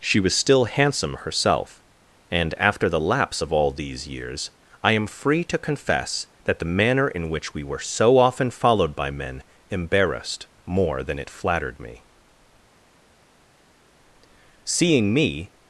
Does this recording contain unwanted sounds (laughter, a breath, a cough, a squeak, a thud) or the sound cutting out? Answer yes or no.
no